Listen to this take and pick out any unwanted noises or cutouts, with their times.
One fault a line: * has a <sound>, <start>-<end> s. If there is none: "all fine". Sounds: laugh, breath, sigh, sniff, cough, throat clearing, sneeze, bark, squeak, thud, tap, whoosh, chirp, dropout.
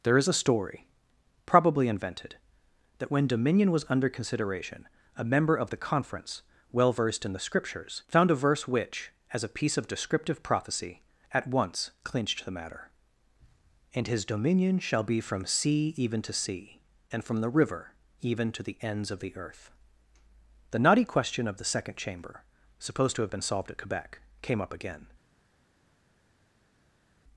all fine